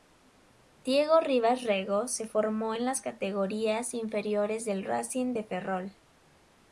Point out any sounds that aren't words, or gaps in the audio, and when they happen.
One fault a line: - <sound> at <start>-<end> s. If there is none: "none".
none